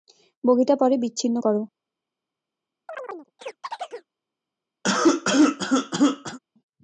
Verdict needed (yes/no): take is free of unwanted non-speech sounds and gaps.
no